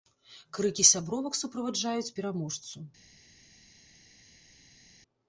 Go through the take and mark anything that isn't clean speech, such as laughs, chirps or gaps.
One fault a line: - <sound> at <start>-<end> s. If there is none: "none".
none